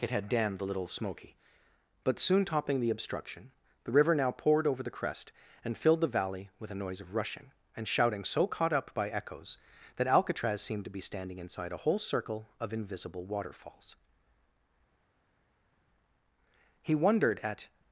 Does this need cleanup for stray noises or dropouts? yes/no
no